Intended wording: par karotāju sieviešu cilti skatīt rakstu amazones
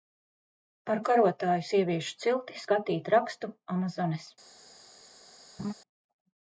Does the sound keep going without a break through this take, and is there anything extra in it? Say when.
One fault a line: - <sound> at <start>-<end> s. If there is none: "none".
- laugh at 5.6-5.7 s